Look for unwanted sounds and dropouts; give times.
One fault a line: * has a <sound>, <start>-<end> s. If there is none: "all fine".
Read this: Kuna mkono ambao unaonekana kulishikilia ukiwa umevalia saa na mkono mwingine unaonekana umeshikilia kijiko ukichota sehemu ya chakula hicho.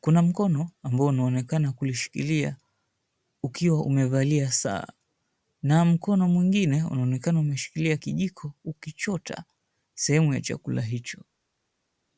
all fine